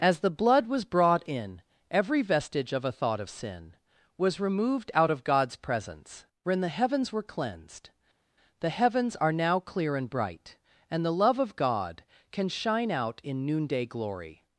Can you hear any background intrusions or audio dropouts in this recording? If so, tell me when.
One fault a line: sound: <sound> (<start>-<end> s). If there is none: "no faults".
no faults